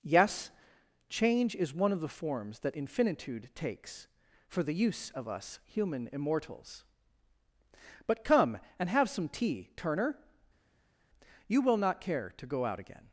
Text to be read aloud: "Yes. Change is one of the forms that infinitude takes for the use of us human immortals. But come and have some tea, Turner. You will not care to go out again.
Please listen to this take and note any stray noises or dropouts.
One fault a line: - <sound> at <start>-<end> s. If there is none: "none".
none